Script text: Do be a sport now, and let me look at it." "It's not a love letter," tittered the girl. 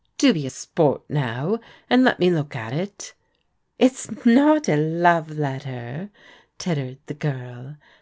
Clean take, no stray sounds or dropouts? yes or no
yes